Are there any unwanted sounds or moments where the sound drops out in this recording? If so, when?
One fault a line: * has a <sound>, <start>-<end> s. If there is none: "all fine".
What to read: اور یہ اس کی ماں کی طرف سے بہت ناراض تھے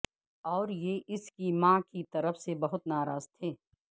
all fine